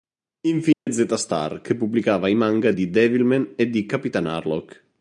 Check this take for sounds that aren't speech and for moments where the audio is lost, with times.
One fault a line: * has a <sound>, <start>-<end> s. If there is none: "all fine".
* has a dropout, 0.7-0.9 s